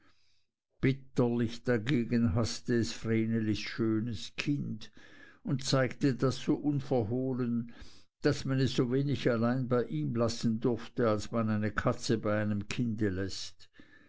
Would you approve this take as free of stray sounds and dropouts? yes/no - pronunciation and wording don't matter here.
yes